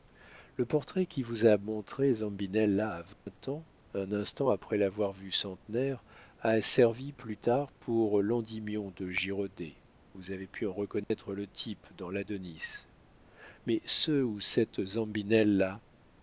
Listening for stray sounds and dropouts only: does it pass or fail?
fail